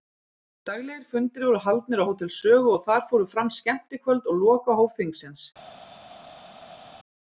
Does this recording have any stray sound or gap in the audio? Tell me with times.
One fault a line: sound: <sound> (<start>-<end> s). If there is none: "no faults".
no faults